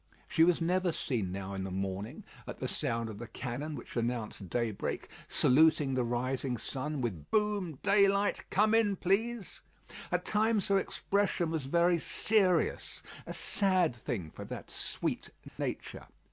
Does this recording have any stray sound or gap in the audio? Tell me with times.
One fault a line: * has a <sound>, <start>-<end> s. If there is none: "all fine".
* has a dropout, 15.5-15.6 s